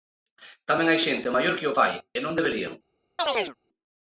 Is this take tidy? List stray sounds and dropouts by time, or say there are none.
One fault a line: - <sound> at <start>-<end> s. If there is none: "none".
- chirp at 3.2-3.6 s